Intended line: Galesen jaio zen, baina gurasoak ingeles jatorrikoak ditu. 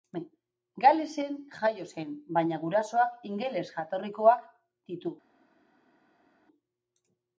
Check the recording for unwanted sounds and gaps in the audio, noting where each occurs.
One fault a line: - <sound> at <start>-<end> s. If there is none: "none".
none